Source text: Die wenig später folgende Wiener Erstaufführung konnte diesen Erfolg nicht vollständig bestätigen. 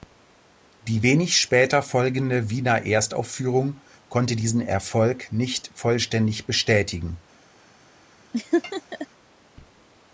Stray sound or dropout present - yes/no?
yes